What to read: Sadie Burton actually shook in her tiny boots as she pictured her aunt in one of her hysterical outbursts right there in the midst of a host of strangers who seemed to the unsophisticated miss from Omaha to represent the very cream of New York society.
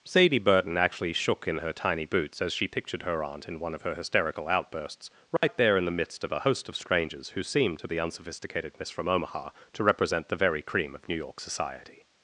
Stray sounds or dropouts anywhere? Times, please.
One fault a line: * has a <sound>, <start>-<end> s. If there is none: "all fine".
* has a dropout, 5.4-5.4 s